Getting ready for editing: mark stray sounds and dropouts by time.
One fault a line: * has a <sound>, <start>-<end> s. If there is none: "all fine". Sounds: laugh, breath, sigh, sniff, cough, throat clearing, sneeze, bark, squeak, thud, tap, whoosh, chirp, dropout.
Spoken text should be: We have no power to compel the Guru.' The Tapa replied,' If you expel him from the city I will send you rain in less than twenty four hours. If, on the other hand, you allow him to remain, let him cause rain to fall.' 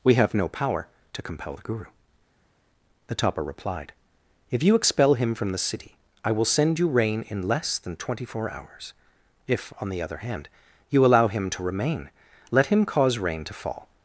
all fine